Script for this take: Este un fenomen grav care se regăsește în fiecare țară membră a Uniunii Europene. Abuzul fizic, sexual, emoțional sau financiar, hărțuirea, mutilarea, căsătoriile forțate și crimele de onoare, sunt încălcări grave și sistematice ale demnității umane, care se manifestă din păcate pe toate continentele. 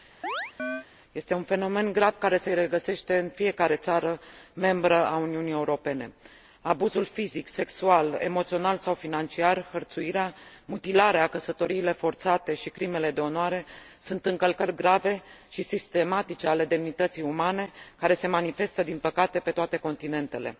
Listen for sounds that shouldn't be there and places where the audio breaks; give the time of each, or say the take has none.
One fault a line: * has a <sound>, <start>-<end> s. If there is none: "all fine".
* has a chirp, 0.2-0.9 s